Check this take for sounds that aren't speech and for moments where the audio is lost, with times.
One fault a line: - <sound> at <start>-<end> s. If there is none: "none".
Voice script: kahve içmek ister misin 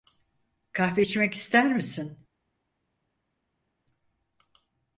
none